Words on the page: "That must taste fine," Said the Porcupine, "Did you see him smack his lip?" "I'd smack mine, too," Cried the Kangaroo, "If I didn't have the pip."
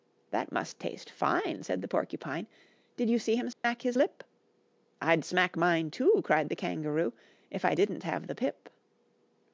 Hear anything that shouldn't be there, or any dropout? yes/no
yes